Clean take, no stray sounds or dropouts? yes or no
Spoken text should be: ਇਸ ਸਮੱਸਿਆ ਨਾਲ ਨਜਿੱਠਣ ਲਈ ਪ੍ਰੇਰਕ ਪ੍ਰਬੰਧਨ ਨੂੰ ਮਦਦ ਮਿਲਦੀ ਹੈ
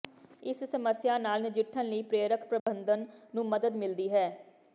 no